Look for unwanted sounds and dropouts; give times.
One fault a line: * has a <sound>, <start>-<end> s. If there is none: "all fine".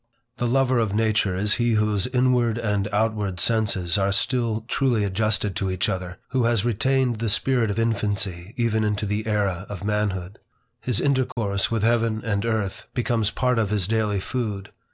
* has a dropout, 11.3-11.4 s